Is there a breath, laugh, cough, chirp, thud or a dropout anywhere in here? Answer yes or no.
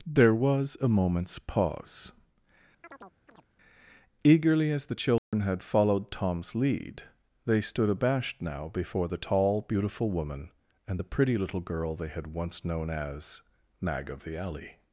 yes